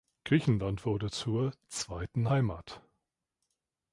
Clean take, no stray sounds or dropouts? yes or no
yes